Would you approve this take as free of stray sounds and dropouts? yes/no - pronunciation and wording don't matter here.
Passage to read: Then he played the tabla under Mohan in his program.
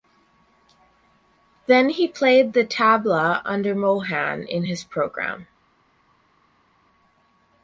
yes